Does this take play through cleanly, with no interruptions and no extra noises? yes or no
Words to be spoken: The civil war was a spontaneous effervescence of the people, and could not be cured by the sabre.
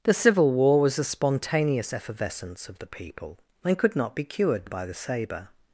yes